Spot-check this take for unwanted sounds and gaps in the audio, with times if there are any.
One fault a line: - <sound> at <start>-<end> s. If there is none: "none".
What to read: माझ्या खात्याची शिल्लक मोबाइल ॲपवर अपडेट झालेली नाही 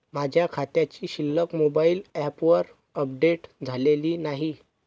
none